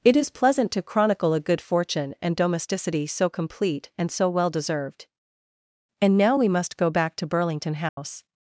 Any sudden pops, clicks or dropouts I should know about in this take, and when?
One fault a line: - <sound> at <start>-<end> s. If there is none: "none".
- dropout at 7.9-8.0 s